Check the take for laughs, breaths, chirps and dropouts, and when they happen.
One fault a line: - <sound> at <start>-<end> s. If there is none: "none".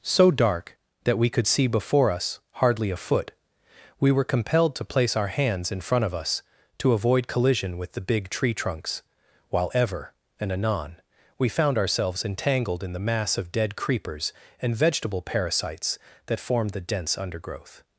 none